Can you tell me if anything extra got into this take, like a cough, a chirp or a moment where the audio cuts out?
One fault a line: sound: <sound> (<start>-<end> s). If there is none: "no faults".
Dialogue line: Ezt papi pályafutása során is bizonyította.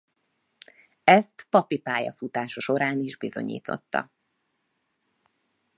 no faults